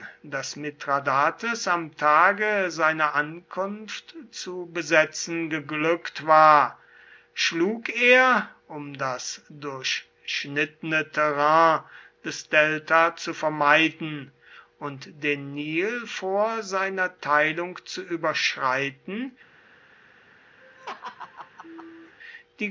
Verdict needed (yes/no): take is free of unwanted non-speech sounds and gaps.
no